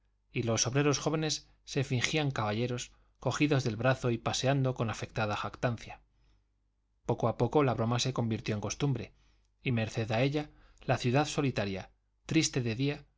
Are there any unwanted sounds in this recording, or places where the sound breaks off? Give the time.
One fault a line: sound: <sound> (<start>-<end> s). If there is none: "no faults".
no faults